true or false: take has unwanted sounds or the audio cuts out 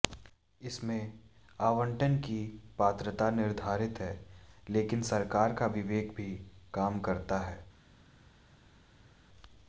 false